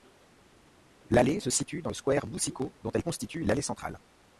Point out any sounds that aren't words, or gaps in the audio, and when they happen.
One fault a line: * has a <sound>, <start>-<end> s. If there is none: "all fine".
all fine